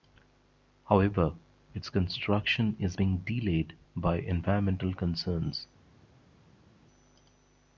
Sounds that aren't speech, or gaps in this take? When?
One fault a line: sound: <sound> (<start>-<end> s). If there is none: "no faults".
no faults